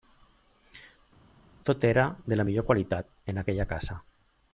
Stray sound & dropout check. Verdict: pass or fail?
pass